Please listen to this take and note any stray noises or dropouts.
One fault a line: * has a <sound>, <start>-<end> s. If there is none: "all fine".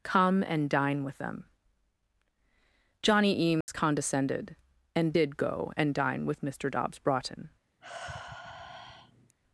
* has a dropout, 3.6-3.7 s
* has a sigh, 7.8-9.4 s